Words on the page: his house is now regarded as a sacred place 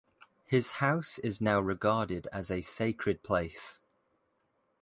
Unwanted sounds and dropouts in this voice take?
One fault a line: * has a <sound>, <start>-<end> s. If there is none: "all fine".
all fine